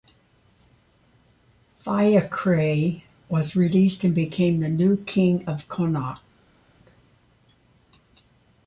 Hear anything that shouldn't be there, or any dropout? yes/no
no